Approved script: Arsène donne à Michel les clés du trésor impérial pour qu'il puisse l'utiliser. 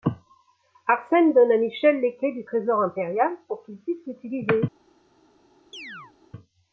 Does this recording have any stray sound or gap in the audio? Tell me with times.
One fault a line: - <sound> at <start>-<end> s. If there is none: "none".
- chirp at 5.7-6.1 s